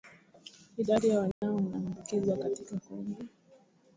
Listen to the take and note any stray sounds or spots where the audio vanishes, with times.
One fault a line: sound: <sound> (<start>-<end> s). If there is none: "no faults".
sound: dropout (1.3-1.4 s)